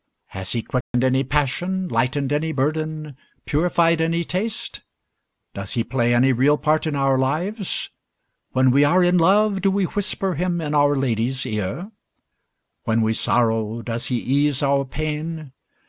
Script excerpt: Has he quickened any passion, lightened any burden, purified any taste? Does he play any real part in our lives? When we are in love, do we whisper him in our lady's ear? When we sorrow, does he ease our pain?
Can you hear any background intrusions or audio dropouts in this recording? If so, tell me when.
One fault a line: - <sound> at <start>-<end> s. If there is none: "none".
- dropout at 0.8-0.9 s